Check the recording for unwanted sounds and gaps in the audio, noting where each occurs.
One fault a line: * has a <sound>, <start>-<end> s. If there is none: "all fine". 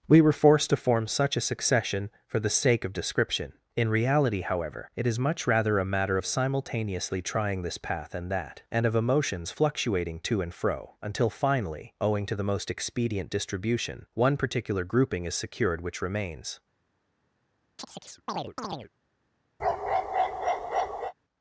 * has a chirp, 17.8-18.9 s
* has a bark, 19.6-21.1 s